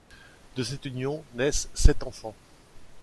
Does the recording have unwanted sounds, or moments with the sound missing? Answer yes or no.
no